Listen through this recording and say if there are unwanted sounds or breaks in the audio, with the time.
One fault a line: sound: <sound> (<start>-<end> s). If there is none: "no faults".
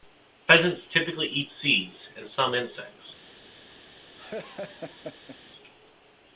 sound: laugh (4.2-5.4 s)